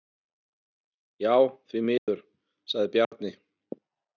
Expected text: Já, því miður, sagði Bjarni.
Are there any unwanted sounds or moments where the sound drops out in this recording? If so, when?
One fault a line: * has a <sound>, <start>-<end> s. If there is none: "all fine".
* has a dropout, 2.0-2.1 s
* has a dropout, 3.0-3.1 s